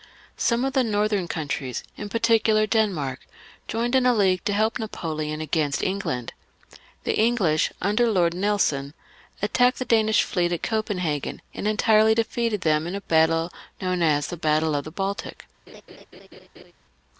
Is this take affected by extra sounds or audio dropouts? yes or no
yes